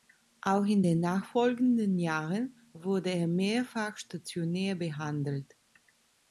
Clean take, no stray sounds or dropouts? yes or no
yes